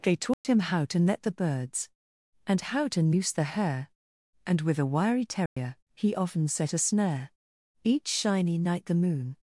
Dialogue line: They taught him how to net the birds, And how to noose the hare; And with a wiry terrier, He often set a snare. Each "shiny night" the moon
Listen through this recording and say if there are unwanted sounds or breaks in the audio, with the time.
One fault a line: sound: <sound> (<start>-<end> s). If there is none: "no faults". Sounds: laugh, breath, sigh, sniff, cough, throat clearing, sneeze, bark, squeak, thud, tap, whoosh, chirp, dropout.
sound: dropout (0.3-0.4 s)
sound: dropout (5.5-5.6 s)